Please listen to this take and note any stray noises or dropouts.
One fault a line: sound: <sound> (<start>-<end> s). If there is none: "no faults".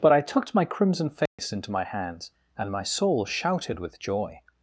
sound: dropout (1.3-1.4 s)